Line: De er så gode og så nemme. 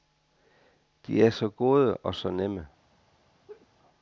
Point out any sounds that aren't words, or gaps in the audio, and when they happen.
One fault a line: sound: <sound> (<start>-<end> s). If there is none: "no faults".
sound: laugh (3.5-3.7 s)